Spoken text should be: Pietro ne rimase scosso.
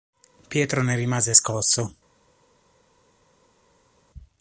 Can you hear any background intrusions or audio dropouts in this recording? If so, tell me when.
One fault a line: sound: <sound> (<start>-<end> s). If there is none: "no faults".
no faults